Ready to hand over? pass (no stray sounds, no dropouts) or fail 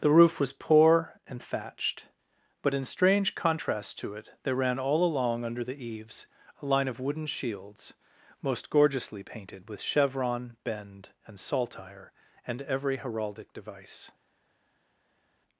pass